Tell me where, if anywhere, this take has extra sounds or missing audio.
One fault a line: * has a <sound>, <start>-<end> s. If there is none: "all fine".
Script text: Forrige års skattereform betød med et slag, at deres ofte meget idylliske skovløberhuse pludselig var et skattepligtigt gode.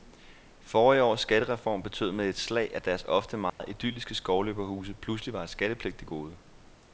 * has a dropout, 3.5-3.6 s